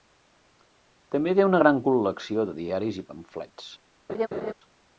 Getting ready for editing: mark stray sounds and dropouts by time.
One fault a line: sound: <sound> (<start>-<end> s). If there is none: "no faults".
sound: laugh (4.1-4.5 s)